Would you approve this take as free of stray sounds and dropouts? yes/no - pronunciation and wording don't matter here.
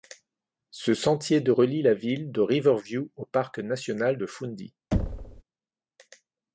no